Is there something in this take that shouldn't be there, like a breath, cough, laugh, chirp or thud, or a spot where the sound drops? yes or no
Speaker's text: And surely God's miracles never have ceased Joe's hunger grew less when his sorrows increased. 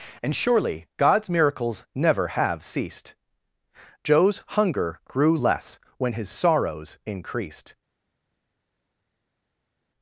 no